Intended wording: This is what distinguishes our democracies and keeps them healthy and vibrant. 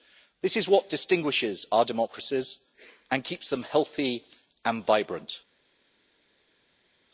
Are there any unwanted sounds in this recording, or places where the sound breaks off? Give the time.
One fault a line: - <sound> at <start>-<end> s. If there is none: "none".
none